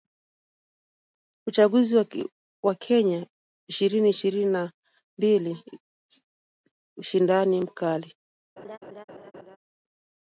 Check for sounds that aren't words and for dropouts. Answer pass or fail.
fail